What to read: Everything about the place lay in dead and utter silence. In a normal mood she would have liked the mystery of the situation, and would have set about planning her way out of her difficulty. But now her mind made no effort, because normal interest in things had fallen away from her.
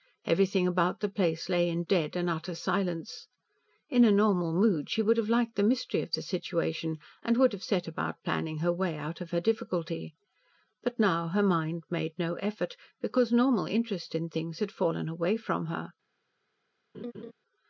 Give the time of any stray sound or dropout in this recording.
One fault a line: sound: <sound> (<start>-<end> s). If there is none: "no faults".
sound: laugh (16.9-17.3 s)